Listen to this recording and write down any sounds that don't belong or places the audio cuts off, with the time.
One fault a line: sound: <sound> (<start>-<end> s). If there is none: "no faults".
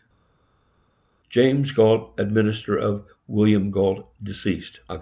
no faults